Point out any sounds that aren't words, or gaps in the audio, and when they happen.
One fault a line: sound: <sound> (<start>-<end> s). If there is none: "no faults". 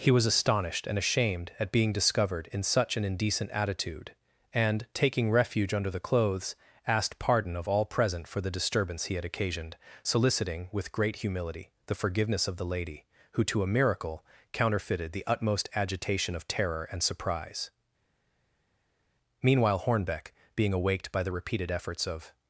no faults